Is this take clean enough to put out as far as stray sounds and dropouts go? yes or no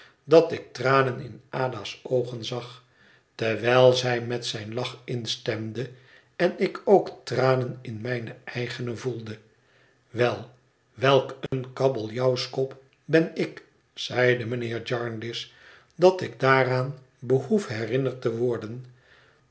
no